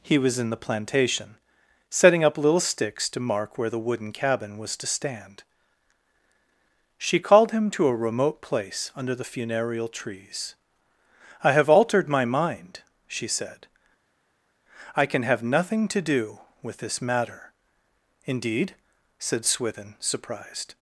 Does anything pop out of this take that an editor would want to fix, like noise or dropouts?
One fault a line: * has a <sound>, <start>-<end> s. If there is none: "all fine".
all fine